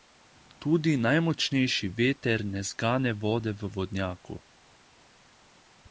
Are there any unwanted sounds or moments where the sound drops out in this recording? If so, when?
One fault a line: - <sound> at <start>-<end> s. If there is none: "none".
none